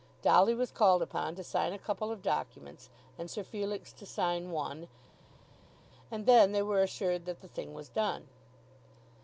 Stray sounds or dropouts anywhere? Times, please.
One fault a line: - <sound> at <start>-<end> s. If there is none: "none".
none